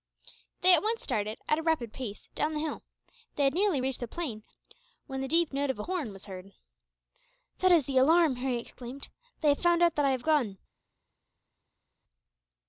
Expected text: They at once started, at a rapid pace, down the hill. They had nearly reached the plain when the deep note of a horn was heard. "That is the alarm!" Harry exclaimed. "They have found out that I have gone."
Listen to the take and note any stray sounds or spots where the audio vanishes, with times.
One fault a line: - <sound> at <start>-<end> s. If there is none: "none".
none